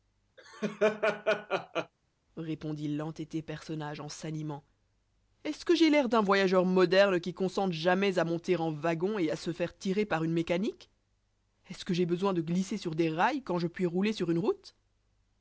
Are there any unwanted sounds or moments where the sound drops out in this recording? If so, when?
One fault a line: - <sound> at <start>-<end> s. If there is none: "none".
- laugh at 0.4-1.9 s